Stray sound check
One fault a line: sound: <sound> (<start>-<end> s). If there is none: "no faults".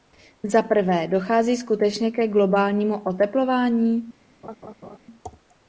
sound: laugh (4.4-5.0 s)